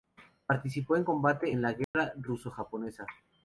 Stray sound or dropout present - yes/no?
yes